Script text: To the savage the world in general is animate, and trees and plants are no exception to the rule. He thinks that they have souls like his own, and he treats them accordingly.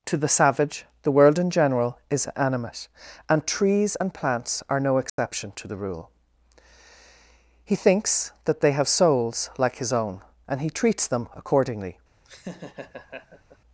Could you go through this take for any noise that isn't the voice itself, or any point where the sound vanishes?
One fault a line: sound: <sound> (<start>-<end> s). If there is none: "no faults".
sound: dropout (5.1-5.2 s)
sound: laugh (12.3-13.6 s)